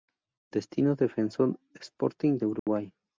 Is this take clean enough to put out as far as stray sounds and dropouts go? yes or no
no